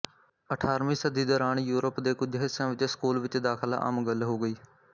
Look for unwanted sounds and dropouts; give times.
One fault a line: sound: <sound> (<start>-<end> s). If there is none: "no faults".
no faults